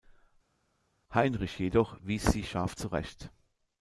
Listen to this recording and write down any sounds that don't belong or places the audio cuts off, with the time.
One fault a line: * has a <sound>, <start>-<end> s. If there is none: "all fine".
all fine